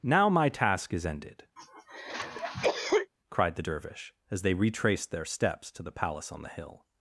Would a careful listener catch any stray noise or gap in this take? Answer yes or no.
yes